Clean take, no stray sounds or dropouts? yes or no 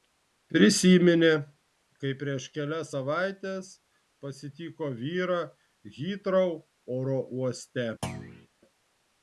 no